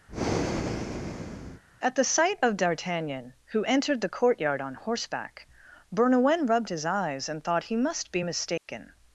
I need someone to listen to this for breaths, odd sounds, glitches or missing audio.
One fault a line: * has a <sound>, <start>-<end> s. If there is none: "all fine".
* has a breath, 0.1-1.6 s
* has a dropout, 8.6-8.7 s